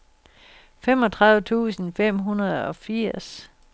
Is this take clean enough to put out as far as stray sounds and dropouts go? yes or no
yes